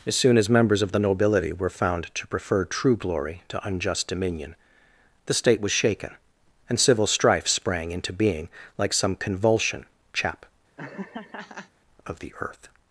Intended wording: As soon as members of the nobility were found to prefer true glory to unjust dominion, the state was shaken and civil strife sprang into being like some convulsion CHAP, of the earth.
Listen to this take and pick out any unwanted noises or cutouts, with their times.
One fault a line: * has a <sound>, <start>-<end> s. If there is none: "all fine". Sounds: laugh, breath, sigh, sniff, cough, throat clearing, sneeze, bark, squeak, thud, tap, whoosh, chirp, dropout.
* has a laugh, 10.8-11.7 s